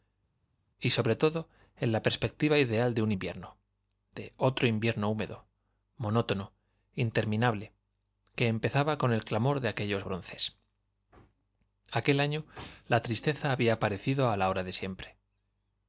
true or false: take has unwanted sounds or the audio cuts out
false